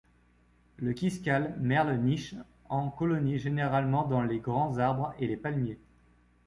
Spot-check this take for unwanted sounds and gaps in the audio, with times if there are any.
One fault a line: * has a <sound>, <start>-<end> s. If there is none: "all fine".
all fine